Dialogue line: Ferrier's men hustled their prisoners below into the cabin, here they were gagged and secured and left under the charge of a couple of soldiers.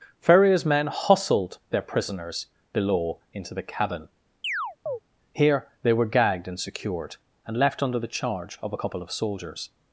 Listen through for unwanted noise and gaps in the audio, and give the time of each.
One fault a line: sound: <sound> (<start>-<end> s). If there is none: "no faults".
sound: chirp (4.4-5.0 s)